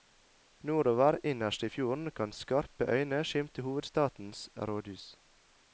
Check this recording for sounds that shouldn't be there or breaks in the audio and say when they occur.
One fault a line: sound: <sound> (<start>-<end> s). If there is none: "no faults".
no faults